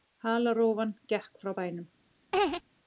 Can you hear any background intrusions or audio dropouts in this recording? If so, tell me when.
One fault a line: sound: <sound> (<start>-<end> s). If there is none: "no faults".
sound: laugh (2.3-2.6 s)